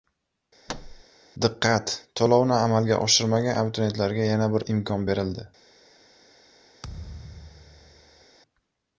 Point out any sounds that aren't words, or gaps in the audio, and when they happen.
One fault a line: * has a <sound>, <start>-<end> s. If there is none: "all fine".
* has a thud, 0.7-1.0 s
* has a thud, 6.8-8.3 s